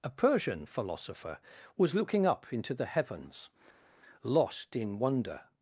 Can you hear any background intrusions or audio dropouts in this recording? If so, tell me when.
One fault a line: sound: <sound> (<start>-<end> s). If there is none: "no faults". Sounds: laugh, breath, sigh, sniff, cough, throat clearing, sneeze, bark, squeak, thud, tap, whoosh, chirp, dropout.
no faults